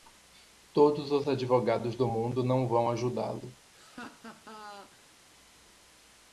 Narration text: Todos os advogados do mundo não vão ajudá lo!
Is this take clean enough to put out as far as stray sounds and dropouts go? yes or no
no